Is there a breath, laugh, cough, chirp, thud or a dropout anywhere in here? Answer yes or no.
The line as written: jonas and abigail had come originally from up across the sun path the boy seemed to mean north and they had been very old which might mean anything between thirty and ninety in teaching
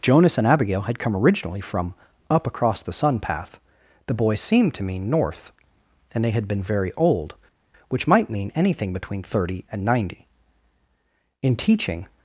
no